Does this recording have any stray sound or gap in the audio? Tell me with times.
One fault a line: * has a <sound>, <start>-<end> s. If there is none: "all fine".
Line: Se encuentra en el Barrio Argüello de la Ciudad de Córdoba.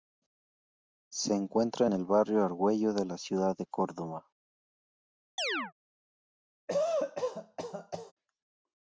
* has a chirp, 5.4-5.7 s
* has a cough, 6.7-8.1 s